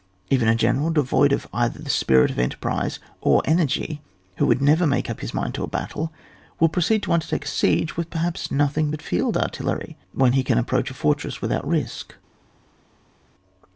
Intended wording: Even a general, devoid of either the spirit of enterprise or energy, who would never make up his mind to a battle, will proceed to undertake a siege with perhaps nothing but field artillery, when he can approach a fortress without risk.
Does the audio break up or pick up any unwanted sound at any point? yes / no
no